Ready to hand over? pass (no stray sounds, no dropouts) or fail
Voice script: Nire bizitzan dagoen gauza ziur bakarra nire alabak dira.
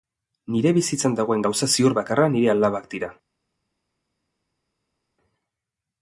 pass